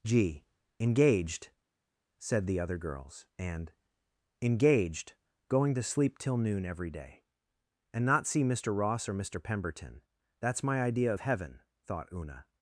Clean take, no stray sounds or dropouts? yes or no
yes